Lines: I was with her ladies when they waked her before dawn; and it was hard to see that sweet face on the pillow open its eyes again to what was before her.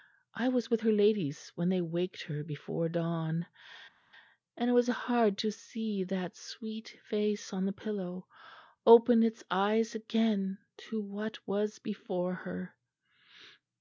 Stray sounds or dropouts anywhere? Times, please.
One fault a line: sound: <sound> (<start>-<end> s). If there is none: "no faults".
no faults